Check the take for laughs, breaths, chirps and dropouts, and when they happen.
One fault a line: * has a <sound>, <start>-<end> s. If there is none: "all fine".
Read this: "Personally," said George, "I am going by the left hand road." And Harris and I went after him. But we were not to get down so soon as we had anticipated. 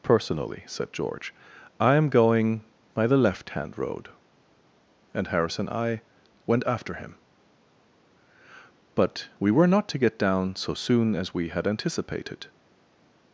all fine